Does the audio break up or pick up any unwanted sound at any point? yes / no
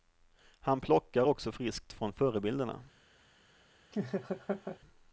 yes